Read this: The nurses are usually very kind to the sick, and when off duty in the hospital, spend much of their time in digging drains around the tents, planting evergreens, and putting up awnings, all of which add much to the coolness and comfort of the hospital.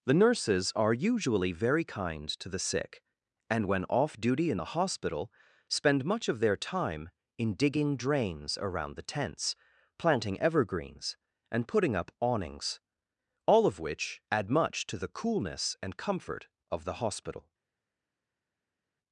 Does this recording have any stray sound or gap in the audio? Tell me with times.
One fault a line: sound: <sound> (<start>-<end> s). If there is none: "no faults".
no faults